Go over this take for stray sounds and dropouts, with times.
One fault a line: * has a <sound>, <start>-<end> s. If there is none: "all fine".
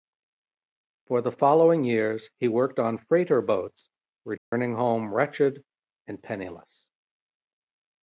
* has a dropout, 4.4-4.5 s